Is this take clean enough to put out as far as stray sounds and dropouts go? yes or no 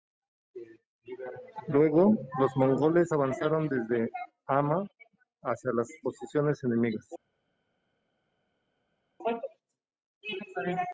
yes